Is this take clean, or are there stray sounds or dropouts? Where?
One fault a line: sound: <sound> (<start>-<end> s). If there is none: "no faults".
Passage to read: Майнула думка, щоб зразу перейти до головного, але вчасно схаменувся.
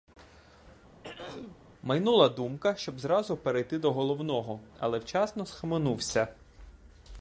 sound: throat clearing (1.0-1.6 s)